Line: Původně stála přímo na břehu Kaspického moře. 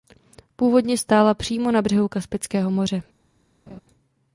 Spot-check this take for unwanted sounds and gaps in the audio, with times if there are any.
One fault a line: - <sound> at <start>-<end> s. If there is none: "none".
- laugh at 3.7-3.8 s